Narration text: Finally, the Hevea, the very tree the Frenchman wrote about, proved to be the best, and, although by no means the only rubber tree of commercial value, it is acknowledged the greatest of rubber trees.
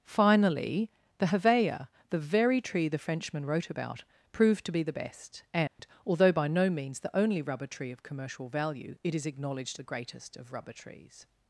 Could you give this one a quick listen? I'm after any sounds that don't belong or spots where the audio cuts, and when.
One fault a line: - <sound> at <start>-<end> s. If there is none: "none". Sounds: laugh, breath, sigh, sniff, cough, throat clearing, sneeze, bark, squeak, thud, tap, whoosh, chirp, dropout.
- dropout at 5.7-5.8 s